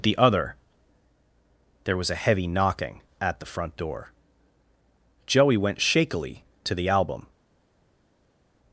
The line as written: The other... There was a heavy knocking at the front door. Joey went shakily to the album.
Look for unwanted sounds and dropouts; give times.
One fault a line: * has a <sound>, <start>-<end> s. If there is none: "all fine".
all fine